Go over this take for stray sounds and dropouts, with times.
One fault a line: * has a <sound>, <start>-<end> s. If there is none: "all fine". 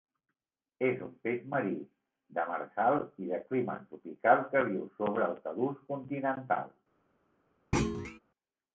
* has a thud, 7.7-8.2 s